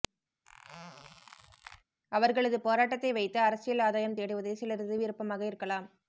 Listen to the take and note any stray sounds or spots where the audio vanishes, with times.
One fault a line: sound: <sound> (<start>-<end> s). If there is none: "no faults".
sound: squeak (0.4-1.8 s)